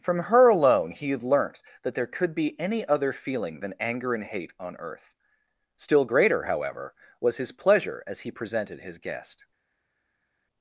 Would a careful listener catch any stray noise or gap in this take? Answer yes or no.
no